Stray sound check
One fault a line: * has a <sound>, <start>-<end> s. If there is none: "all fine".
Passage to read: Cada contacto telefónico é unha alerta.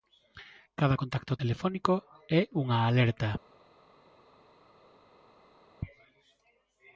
all fine